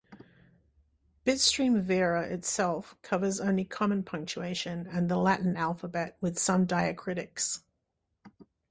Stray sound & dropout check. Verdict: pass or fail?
pass